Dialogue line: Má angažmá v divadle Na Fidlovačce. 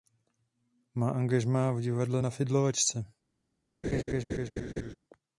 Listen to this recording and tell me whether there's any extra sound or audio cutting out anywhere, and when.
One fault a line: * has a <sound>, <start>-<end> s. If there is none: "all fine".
* has a laugh, 3.8-5.0 s